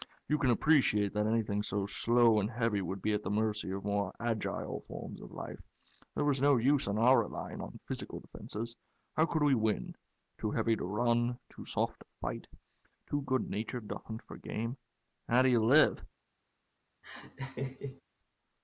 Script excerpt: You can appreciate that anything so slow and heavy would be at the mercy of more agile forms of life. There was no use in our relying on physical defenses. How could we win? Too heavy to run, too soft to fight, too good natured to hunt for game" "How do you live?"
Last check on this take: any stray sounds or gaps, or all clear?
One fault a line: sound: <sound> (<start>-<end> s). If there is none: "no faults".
sound: laugh (17.0-18.0 s)